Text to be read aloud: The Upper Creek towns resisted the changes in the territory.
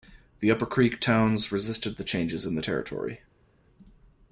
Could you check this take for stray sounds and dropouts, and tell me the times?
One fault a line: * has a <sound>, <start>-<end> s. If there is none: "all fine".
all fine